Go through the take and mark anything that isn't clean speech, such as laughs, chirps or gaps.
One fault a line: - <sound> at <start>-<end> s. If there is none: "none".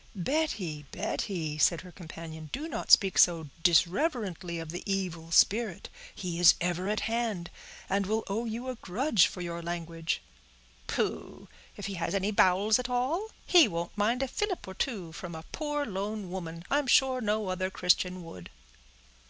none